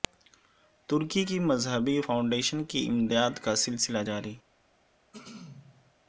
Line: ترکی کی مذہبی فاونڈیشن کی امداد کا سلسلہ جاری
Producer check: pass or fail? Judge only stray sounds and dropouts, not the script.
fail